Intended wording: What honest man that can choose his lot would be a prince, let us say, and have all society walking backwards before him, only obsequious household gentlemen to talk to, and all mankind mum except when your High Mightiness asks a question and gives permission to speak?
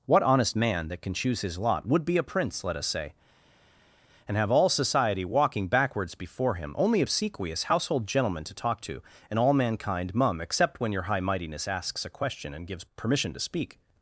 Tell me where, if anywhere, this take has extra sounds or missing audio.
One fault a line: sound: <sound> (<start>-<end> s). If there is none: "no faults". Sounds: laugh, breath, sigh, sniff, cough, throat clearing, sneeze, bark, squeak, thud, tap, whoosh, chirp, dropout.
no faults